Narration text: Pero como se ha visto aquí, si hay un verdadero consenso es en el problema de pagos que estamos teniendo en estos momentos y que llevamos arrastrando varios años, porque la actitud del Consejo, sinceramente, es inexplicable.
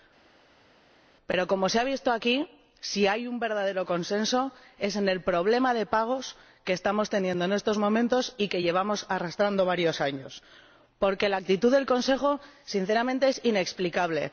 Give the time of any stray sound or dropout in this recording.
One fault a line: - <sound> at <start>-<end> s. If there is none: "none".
none